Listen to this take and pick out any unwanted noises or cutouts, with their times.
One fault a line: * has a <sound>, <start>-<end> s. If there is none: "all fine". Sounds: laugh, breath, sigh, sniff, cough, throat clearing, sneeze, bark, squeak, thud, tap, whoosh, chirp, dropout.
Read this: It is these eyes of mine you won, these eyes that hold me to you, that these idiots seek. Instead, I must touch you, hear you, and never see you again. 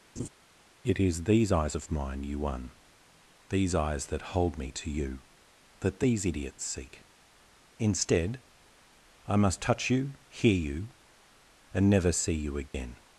* has a laugh, 0.2-0.3 s
* has a dropout, 12.7-12.7 s